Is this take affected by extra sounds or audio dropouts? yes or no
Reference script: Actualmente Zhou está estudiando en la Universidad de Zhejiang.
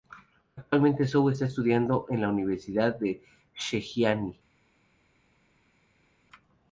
no